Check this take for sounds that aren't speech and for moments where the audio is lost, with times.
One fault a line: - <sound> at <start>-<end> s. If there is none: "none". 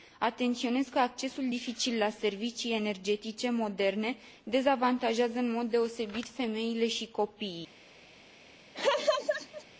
- laugh at 8.7-9.6 s